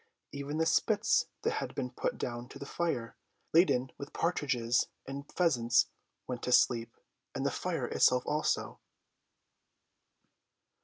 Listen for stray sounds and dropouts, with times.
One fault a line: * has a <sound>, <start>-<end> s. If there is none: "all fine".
all fine